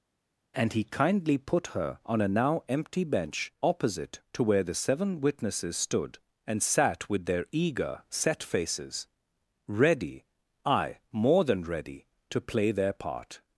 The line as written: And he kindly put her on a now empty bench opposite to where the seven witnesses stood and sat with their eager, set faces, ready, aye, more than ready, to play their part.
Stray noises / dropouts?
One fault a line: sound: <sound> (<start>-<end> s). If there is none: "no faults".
no faults